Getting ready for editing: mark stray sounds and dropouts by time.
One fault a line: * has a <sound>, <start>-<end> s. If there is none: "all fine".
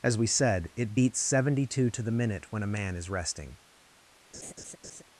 * has a laugh, 4.3-5.0 s